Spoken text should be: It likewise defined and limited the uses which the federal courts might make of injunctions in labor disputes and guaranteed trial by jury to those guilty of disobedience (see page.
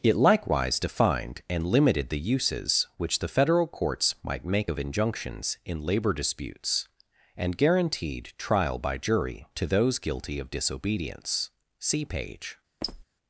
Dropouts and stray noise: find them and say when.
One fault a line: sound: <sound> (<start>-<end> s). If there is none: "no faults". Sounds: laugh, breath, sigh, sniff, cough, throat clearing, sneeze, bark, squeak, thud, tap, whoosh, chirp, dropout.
sound: squeak (12.8-13.0 s)